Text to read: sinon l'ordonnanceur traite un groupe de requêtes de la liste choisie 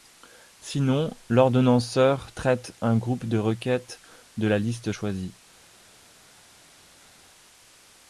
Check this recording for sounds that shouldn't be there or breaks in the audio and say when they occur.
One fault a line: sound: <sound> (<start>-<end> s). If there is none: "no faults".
no faults